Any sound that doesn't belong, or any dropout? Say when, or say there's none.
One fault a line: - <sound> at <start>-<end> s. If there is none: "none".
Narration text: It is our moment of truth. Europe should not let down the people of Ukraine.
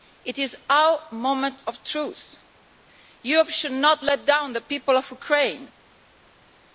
none